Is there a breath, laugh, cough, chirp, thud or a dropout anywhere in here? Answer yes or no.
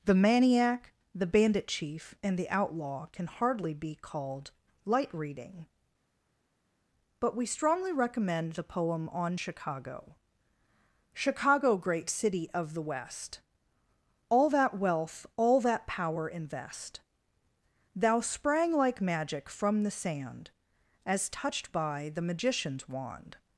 no